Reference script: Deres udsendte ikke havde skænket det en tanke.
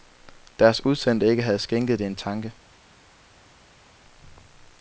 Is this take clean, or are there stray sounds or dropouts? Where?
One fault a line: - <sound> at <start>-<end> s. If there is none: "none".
none